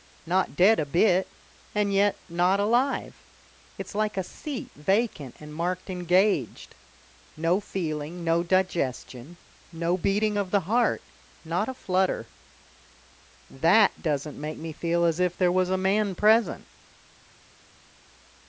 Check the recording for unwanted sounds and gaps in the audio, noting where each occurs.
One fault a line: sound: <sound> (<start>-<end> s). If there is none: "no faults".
no faults